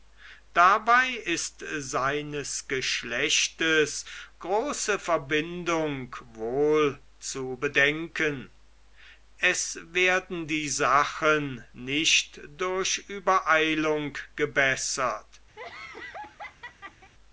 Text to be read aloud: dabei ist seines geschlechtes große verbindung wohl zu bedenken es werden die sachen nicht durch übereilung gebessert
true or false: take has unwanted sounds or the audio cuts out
true